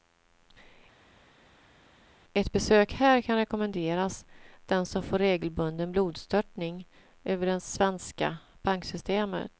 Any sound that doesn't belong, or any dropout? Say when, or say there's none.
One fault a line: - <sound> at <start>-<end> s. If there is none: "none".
none